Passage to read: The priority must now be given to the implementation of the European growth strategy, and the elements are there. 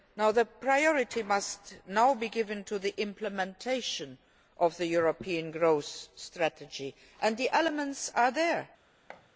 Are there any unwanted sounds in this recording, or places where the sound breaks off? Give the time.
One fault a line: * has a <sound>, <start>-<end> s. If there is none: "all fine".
* has a thud, 9.1-9.3 s